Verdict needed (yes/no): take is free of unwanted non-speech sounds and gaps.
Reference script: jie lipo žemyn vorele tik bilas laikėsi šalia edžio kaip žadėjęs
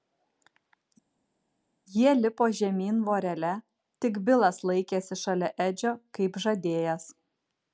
yes